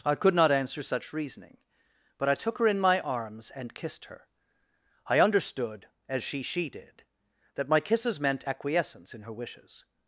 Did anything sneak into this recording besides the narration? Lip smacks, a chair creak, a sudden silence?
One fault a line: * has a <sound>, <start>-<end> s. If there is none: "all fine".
all fine